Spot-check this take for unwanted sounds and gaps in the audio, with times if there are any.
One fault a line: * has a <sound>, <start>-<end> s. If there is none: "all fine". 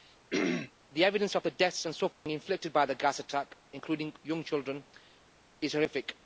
* has a throat clearing, 0.3-0.7 s
* has a dropout, 2.1-2.3 s